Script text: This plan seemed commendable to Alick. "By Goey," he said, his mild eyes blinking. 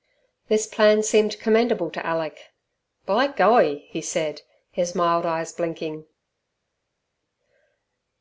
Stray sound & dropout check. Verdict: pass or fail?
pass